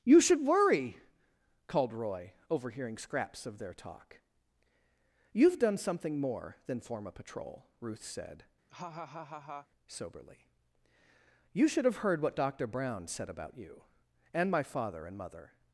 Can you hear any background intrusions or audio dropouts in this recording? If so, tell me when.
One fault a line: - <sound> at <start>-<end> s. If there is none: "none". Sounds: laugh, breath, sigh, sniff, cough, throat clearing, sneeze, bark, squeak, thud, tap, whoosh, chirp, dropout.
- laugh at 8.7-9.7 s